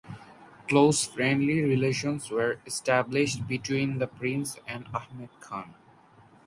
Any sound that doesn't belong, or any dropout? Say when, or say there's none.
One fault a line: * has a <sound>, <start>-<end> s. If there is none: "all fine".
all fine